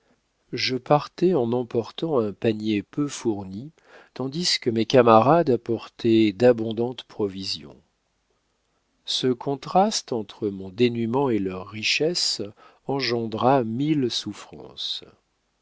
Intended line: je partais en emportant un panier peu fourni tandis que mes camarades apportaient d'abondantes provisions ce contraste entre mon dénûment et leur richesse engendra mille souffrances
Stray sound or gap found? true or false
false